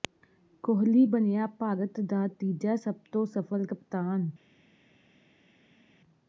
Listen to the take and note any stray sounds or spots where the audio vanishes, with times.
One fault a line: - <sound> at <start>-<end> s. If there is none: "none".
none